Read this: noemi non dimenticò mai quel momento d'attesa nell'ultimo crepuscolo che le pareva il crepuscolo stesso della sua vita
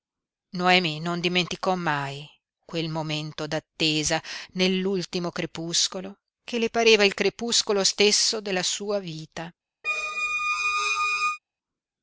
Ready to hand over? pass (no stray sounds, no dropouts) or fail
fail